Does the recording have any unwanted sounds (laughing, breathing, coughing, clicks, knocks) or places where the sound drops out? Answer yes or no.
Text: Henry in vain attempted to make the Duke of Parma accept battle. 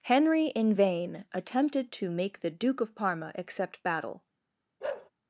yes